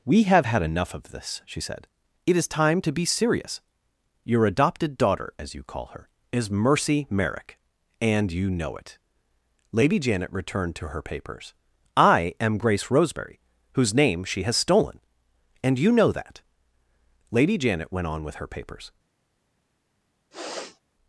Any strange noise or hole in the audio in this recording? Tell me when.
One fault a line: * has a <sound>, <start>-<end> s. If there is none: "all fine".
* has a sniff, 20.3-20.8 s